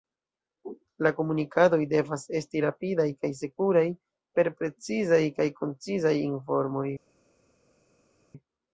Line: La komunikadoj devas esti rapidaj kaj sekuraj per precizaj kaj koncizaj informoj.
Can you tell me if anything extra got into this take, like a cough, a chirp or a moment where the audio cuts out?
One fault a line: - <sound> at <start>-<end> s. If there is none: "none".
none